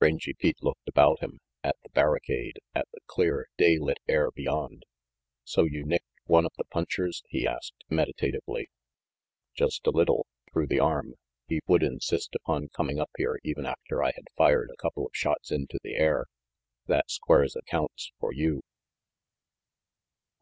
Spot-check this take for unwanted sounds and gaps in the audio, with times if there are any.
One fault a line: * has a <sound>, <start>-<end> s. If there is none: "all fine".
all fine